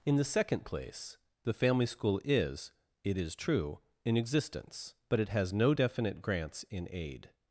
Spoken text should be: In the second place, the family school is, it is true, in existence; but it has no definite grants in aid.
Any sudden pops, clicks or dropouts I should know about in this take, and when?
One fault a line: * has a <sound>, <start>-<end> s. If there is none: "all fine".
all fine